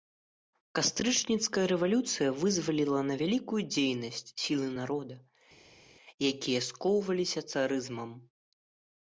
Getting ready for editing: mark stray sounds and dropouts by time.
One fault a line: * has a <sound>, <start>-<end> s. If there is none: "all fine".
all fine